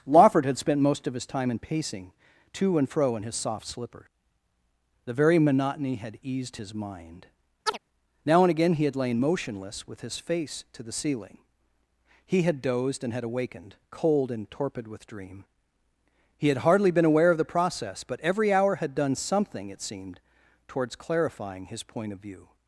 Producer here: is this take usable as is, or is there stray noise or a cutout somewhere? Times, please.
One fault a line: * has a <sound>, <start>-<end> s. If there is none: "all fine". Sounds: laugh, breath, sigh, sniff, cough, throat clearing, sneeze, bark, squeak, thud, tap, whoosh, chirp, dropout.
* has a chirp, 7.7-7.8 s